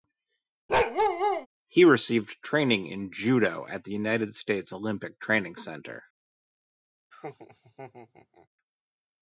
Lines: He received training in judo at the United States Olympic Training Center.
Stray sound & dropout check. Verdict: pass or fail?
fail